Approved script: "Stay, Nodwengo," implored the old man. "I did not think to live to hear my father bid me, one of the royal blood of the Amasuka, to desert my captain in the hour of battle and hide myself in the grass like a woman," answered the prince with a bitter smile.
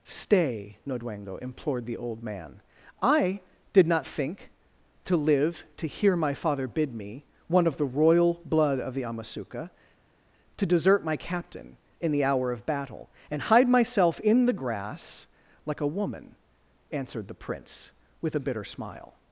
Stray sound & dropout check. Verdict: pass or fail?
pass